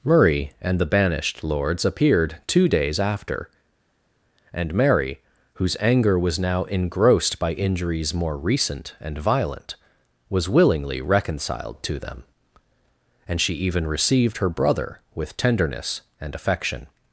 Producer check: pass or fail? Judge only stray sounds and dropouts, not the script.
pass